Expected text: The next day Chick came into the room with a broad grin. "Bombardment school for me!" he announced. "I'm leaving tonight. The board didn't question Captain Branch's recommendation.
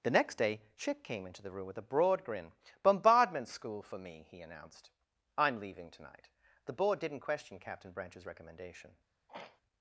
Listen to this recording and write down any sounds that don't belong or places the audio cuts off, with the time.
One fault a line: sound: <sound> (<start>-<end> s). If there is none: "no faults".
sound: throat clearing (9.3-9.6 s)